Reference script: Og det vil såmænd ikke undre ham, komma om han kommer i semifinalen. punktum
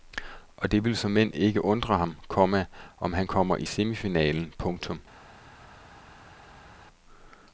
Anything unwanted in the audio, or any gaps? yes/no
no